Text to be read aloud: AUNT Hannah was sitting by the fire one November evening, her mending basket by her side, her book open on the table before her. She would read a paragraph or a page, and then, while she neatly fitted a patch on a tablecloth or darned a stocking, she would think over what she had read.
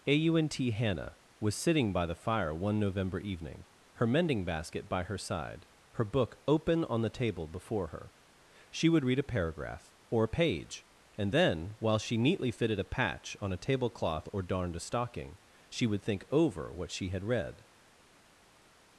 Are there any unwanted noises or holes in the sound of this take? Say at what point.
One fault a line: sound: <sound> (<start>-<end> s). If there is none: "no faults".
no faults